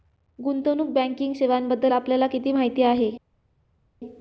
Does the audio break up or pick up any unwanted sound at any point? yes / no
no